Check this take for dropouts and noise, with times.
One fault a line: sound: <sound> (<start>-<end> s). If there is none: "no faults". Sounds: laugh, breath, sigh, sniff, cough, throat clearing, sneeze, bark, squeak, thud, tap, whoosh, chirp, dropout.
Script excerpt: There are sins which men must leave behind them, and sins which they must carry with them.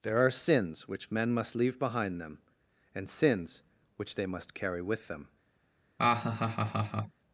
sound: laugh (6.0-7.2 s)